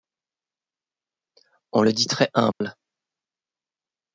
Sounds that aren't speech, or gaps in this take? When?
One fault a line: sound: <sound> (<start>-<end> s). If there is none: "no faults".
sound: dropout (2.5-2.6 s)